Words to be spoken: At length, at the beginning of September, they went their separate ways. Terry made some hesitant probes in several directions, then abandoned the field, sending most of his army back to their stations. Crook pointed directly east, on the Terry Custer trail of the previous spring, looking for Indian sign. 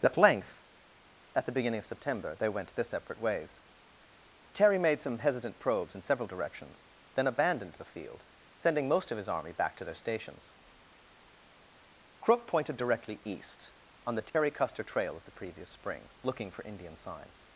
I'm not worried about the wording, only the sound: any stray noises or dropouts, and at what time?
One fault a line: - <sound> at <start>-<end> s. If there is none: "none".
- dropout at 14.3-14.3 s